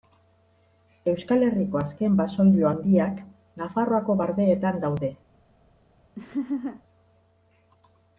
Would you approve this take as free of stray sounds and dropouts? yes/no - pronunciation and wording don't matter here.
no